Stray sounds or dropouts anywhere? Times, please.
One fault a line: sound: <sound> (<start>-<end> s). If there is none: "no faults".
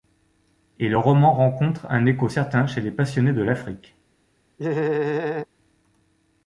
sound: laugh (4.6-5.5 s)